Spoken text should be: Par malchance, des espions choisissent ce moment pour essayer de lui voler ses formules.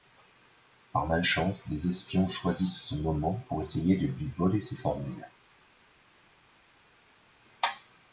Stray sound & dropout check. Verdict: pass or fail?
pass